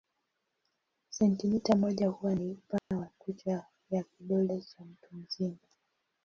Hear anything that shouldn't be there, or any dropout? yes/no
yes